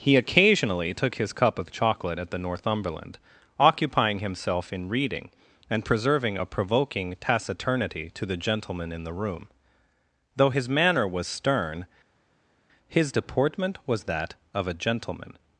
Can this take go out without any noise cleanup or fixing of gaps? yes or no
yes